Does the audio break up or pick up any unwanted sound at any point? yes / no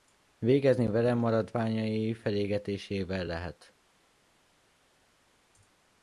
no